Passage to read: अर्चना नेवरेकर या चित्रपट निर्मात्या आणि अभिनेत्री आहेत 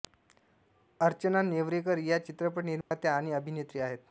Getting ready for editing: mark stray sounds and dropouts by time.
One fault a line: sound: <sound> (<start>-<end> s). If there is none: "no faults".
sound: dropout (2.8-2.9 s)